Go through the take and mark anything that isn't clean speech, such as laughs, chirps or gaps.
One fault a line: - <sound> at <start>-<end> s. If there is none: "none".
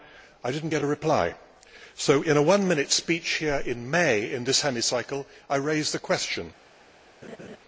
- laugh at 7.2-7.6 s